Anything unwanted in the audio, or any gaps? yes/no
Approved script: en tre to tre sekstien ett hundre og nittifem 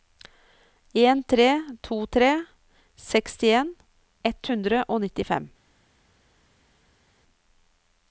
no